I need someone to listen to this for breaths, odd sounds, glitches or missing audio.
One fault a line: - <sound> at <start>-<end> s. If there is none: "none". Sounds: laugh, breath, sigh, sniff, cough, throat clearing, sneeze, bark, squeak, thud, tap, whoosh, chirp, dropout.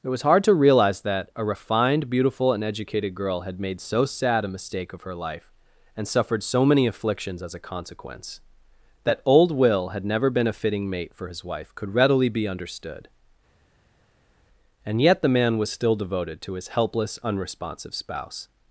none